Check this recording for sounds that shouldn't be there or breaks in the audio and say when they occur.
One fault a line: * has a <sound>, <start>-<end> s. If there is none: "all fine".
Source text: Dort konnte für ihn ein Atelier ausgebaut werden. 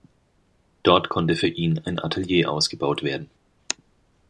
all fine